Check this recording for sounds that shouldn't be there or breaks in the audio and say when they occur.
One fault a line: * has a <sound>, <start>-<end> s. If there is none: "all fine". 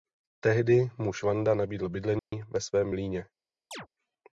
* has a dropout, 2.2-2.3 s
* has a chirp, 3.7-3.9 s